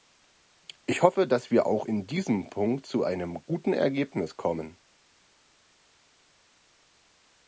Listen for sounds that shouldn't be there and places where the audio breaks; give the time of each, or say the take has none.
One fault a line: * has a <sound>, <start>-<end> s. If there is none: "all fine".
all fine